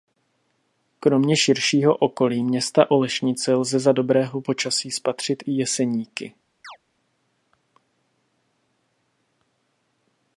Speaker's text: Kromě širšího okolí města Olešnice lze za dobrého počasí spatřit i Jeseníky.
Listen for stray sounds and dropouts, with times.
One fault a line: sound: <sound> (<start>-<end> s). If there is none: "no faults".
sound: chirp (6.6-6.8 s)